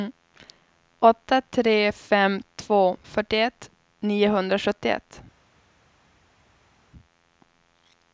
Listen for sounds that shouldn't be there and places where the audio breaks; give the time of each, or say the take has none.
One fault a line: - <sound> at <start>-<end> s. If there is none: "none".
none